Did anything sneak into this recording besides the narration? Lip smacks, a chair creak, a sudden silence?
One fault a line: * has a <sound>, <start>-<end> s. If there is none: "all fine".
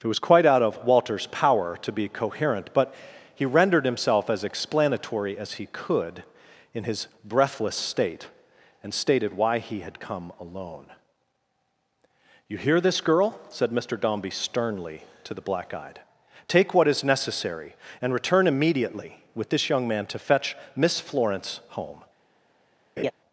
* has a laugh, 23.0-23.1 s